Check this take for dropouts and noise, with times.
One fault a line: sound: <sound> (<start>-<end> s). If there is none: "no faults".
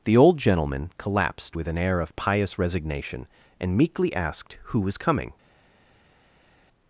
no faults